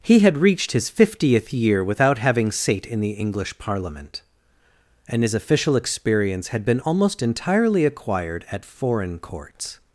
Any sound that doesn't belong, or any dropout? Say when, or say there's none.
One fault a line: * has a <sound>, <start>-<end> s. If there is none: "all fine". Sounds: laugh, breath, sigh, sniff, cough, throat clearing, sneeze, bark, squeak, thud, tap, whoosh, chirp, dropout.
all fine